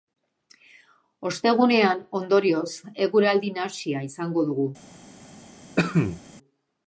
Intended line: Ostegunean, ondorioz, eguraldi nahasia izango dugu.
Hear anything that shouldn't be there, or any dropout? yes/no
yes